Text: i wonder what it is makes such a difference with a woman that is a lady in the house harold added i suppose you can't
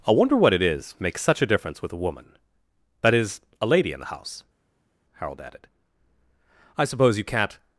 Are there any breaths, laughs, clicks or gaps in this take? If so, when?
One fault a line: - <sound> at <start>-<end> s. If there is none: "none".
none